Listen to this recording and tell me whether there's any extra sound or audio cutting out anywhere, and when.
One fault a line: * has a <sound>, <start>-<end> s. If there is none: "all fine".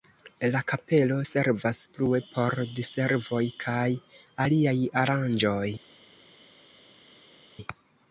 all fine